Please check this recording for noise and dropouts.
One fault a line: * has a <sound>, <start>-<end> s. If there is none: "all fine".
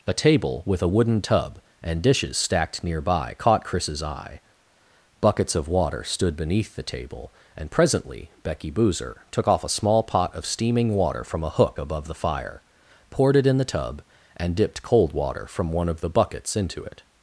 all fine